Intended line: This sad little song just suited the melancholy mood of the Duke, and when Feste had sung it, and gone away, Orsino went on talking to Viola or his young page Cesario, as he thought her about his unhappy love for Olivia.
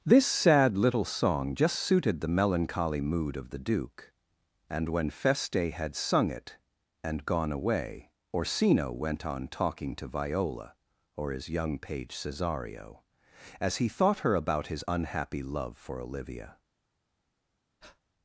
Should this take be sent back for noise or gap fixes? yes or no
yes